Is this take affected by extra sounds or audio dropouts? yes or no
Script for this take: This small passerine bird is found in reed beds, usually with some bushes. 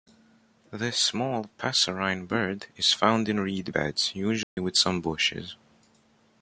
yes